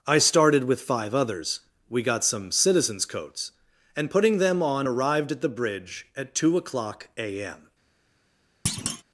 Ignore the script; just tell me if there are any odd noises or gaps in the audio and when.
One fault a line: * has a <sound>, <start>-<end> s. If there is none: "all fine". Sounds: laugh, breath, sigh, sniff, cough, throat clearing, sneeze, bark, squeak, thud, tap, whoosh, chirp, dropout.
* has a thud, 8.7-9.0 s